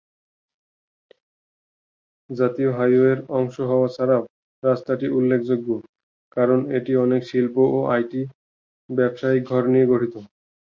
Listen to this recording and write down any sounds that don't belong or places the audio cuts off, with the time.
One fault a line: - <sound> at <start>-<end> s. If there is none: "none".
none